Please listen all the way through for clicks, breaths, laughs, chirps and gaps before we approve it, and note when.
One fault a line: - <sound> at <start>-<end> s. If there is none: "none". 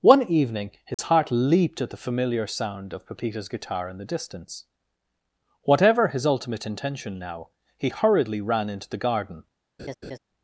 - dropout at 0.9-1.0 s
- laugh at 9.8-10.2 s